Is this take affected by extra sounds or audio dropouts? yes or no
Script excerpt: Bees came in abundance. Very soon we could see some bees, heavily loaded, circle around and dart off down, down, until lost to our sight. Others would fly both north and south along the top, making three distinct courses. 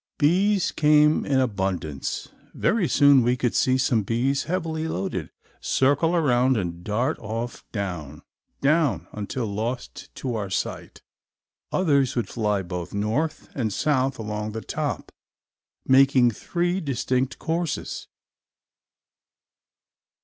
no